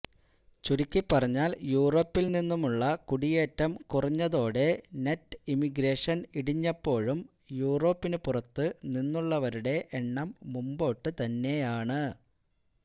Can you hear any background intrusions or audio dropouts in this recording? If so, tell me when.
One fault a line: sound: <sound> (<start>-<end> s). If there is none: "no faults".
no faults